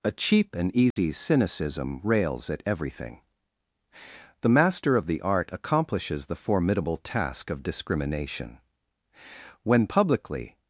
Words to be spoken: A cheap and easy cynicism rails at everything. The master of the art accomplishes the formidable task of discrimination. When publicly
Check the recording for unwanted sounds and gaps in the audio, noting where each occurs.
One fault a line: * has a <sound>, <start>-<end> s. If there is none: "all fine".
* has a dropout, 0.9-1.0 s